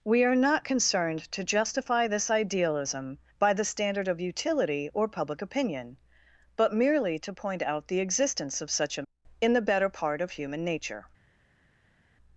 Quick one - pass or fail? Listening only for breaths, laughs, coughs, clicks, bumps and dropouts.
pass